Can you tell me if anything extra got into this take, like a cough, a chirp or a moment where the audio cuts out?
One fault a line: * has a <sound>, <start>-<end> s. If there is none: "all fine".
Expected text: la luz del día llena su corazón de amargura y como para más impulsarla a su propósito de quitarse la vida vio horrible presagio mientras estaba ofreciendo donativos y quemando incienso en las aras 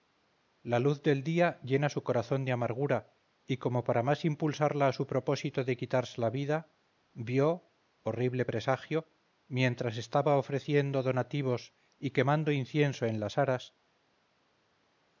all fine